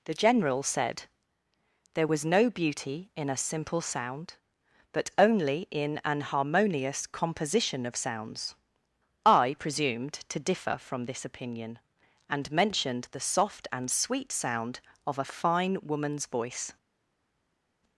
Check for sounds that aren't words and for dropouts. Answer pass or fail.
pass